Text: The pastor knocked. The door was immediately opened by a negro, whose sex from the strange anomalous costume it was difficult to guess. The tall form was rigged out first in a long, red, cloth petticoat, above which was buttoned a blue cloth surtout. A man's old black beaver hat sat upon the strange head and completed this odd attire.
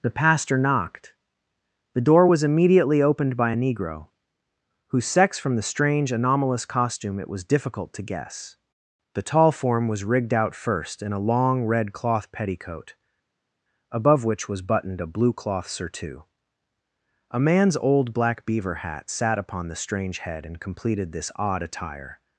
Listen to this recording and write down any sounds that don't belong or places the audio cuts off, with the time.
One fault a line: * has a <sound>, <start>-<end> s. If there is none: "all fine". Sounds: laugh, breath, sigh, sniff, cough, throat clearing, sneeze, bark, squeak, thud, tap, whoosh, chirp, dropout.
all fine